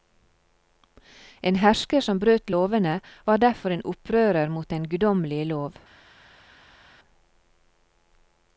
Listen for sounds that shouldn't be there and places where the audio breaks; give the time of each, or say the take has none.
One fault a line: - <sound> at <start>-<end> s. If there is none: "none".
none